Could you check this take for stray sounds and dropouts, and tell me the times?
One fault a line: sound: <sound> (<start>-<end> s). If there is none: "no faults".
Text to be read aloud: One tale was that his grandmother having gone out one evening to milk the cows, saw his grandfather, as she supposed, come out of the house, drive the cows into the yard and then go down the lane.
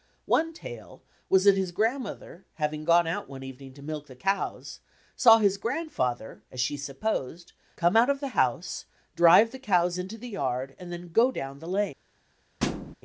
sound: thud (12.6-12.9 s)